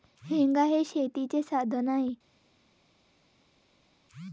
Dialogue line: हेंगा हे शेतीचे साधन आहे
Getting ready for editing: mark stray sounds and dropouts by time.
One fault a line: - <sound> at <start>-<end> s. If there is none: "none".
none